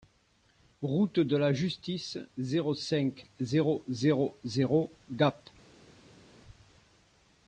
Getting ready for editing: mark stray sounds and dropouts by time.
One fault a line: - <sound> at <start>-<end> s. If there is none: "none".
none